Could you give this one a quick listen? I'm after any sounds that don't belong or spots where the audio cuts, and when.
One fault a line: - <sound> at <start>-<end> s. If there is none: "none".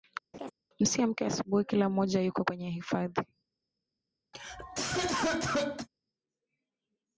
- laugh at 0.3-0.5 s
- cough at 4.3-5.9 s